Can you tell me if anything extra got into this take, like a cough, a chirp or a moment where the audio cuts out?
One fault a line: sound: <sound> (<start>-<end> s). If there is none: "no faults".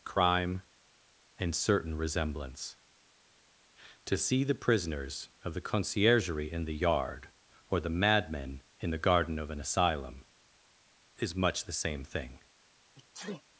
sound: sneeze (12.9-13.4 s)